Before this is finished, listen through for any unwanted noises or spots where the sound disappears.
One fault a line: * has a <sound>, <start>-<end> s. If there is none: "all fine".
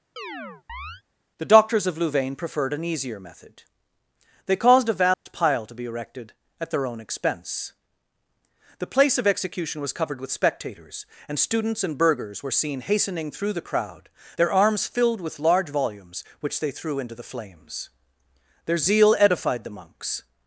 * has a chirp, 0.2-1.0 s
* has a dropout, 5.1-5.3 s